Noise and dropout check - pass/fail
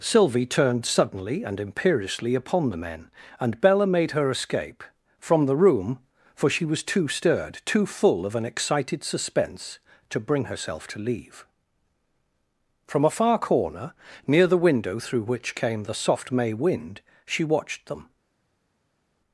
pass